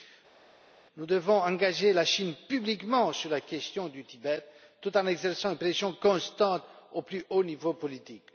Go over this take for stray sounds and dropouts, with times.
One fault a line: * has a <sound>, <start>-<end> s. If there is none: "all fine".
all fine